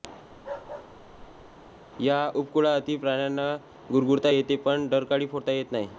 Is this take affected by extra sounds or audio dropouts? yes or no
yes